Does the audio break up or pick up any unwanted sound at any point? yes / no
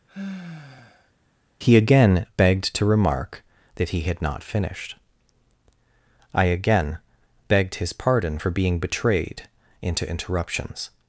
yes